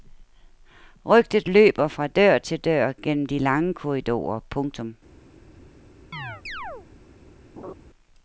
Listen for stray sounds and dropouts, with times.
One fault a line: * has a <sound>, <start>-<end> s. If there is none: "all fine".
* has a chirp, 6.1-6.9 s
* has a laugh, 7.6-7.7 s